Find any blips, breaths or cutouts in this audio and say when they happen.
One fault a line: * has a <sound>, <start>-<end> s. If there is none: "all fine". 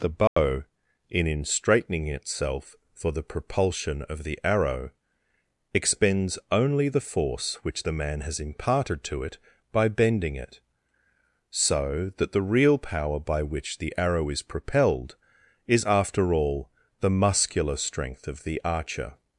* has a dropout, 0.3-0.4 s